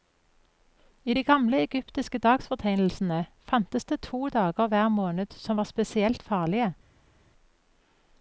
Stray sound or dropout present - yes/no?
no